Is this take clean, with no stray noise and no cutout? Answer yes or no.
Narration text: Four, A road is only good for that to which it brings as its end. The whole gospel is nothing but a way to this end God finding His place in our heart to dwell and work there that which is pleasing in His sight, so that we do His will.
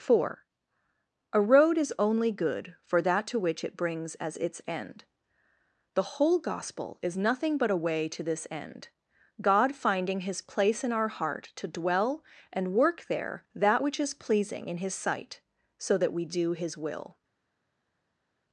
yes